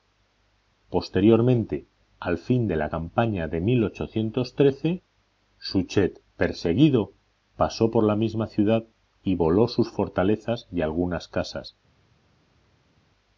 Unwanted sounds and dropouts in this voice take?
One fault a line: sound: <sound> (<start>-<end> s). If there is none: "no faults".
no faults